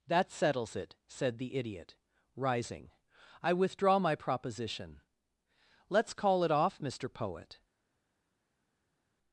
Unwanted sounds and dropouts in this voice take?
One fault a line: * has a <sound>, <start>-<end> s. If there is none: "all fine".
all fine